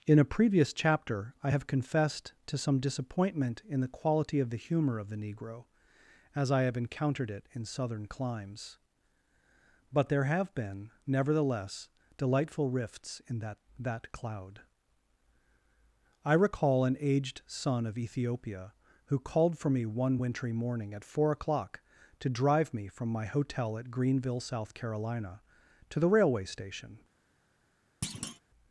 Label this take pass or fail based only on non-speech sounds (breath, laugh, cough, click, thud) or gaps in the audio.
fail